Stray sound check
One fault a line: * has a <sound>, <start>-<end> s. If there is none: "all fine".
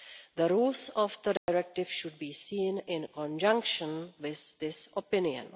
* has a dropout, 1.4-1.5 s